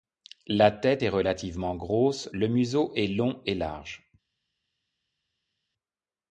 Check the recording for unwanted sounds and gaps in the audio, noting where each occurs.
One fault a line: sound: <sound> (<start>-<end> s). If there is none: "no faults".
no faults